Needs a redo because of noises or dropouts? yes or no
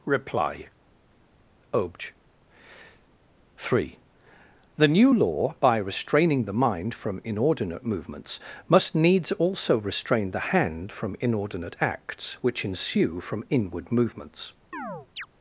yes